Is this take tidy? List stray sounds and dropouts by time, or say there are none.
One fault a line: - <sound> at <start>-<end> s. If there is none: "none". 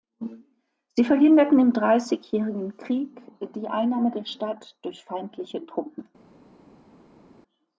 none